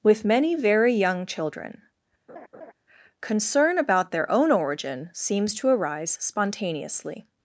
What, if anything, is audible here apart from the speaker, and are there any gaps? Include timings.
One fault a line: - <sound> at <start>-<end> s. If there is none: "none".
- laugh at 2.3-2.7 s